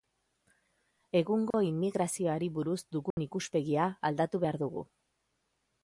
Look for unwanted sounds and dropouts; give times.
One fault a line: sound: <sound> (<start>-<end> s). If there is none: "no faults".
sound: dropout (1.5-1.5 s)
sound: dropout (3.1-3.2 s)